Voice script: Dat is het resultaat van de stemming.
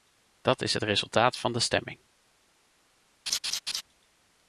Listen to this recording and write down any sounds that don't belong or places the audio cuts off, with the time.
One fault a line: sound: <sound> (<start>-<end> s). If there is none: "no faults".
sound: laugh (3.3-3.8 s)